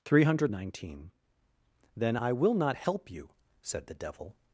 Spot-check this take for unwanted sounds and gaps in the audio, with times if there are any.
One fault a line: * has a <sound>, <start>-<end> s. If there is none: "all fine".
all fine